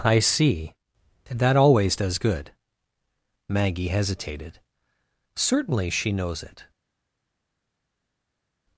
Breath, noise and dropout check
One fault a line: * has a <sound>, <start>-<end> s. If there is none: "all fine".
all fine